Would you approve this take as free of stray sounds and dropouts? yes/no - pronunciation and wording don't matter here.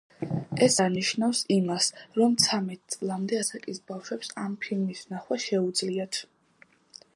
yes